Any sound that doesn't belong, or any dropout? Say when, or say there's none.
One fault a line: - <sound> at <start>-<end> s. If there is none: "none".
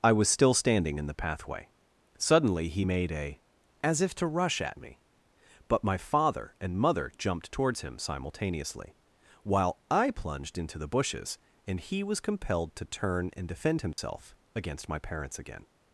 - dropout at 13.9-14.0 s